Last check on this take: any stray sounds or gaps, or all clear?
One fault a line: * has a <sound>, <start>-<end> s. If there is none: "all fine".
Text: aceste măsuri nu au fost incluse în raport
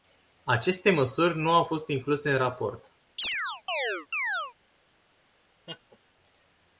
* has a chirp, 3.2-4.5 s
* has a laugh, 5.7-6.0 s